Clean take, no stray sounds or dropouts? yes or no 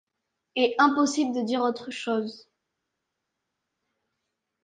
yes